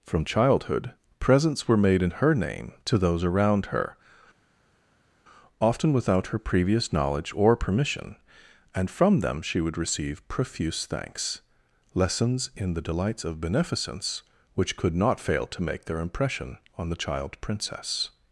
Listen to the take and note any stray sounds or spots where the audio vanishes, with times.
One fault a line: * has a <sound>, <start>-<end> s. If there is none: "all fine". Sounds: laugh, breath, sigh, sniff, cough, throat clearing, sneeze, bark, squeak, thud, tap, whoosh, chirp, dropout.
all fine